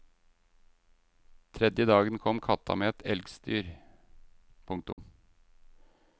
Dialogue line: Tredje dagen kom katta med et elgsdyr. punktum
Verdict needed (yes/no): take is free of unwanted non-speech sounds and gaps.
no